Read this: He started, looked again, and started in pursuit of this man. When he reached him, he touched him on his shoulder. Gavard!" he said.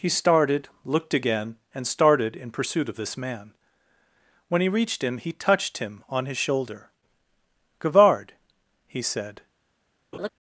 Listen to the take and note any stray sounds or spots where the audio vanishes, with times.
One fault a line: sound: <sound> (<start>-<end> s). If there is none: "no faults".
sound: laugh (10.1-10.3 s)